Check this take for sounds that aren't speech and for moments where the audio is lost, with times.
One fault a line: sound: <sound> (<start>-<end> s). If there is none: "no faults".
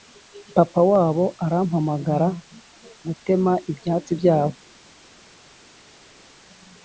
no faults